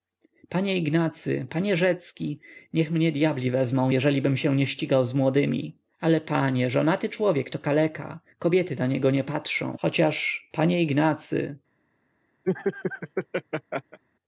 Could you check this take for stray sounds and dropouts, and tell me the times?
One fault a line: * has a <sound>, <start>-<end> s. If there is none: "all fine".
* has a laugh, 12.4-14.0 s